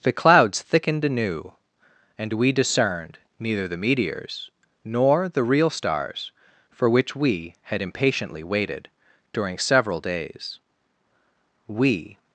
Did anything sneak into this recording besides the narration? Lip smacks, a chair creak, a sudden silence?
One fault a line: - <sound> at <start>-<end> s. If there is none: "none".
none